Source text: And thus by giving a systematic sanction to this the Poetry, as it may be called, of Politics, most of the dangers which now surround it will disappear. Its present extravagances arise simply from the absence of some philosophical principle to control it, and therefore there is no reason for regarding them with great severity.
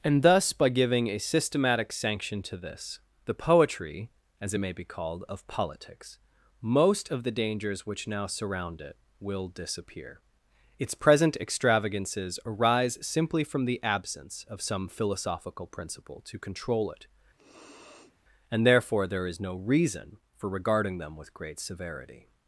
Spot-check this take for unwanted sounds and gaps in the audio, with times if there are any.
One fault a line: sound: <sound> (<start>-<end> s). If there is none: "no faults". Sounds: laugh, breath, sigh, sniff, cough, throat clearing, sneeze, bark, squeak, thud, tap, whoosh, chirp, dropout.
sound: sniff (17.4-18.2 s)